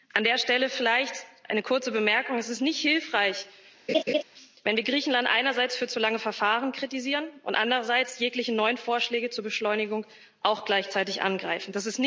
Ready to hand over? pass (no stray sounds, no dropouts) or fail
fail